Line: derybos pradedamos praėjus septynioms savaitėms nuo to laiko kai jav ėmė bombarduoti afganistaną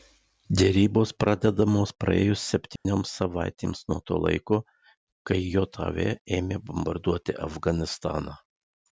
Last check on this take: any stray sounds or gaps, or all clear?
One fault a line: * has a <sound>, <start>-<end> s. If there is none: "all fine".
* has a dropout, 2.8-2.9 s